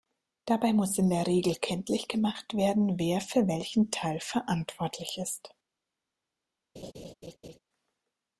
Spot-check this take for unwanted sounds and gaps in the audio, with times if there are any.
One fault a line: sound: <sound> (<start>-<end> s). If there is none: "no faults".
sound: laugh (6.8-7.6 s)